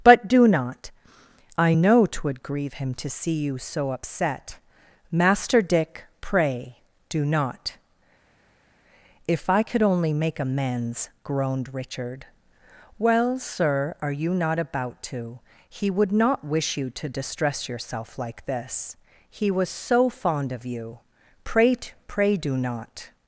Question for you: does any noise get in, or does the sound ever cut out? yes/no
no